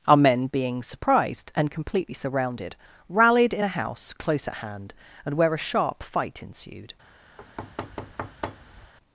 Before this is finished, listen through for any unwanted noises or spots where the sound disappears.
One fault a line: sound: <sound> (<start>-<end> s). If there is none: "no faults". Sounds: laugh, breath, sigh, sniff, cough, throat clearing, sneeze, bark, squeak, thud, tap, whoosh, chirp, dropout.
sound: thud (7.4-8.9 s)